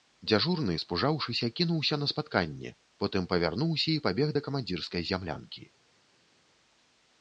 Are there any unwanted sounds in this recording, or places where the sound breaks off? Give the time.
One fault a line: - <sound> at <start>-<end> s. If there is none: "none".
none